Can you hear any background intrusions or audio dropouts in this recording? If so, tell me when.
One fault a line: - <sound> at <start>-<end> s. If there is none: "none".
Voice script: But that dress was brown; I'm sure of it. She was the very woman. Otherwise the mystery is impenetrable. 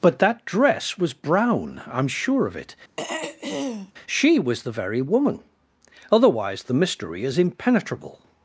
- throat clearing at 3.0-3.9 s